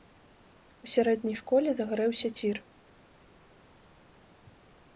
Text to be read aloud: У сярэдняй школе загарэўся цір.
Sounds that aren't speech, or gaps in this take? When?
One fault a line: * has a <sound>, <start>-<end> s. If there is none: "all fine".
all fine